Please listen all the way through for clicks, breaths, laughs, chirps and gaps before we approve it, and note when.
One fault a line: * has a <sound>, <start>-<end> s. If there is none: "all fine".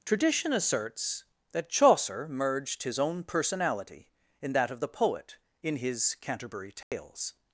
* has a dropout, 6.8-6.9 s